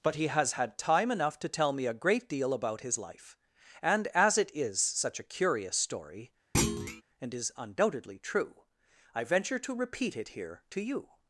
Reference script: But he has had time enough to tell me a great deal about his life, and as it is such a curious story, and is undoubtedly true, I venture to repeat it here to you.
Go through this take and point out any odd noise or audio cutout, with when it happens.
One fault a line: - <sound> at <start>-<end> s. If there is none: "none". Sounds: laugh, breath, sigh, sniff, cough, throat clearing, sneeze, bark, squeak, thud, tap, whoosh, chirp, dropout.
- thud at 6.5-7.0 s